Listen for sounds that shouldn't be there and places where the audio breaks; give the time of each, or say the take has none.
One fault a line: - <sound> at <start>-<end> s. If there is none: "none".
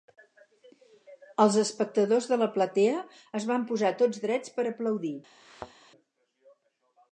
- thud at 5.4-5.7 s